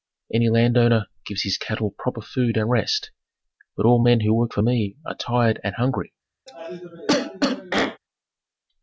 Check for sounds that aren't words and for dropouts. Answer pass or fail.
fail